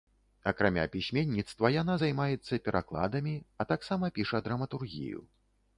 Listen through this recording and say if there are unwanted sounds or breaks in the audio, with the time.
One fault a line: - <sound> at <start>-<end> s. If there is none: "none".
none